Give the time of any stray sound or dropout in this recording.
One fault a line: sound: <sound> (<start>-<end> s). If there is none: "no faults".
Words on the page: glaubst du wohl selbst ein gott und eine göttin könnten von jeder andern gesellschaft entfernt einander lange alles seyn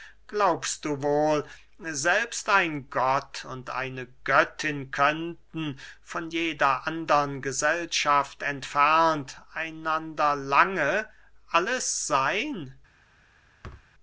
sound: thud (13.6-13.9 s)